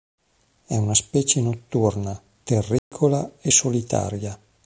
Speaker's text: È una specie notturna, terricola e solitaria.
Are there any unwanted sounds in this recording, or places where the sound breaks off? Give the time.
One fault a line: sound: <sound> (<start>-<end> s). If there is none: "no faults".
sound: dropout (2.8-2.9 s)